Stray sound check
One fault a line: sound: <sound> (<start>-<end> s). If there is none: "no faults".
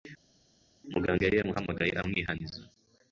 no faults